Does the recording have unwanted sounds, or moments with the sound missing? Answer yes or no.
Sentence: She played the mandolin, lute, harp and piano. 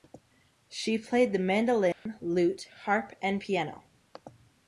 yes